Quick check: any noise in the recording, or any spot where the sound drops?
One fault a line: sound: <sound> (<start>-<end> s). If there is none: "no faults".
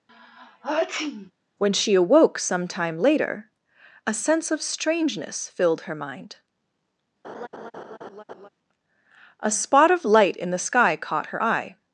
sound: sneeze (0.1-1.3 s)
sound: laugh (7.2-8.5 s)